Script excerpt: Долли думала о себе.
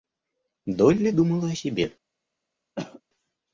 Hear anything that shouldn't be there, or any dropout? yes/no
yes